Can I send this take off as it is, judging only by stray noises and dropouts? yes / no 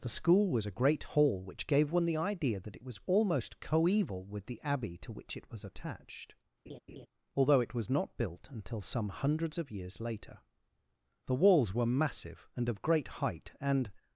no